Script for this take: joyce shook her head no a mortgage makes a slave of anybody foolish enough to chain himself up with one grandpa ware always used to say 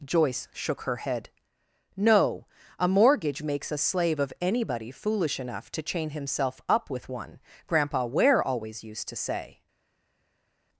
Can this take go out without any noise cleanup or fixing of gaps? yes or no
yes